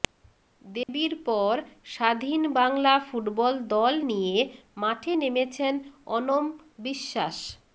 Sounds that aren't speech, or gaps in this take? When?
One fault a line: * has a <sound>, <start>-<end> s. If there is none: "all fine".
* has a dropout, 0.8-0.9 s